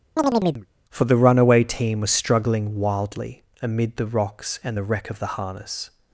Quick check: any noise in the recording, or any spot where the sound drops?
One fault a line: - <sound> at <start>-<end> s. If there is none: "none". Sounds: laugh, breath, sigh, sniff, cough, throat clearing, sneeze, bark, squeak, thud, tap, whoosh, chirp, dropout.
- chirp at 0.2-0.7 s